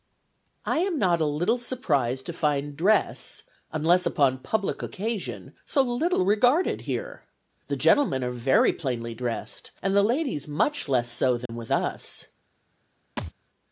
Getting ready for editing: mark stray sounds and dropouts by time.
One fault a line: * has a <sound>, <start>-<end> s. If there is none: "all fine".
* has a dropout, 11.5-11.5 s
* has a thud, 13.2-13.3 s